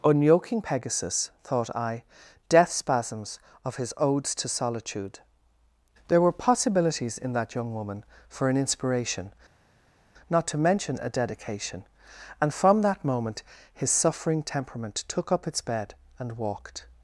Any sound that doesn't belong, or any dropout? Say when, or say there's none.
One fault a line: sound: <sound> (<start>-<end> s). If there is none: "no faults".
no faults